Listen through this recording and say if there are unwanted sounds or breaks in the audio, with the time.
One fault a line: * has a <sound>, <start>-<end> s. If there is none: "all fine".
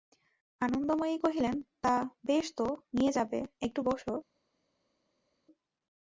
all fine